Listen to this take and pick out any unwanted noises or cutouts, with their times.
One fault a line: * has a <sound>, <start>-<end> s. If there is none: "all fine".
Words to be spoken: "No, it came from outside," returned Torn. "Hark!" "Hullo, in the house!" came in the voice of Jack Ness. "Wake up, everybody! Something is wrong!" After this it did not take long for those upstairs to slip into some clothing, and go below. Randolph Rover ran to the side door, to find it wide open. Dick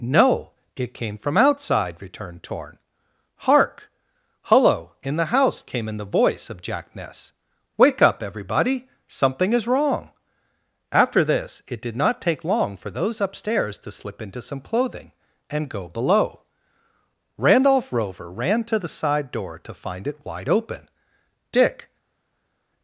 all fine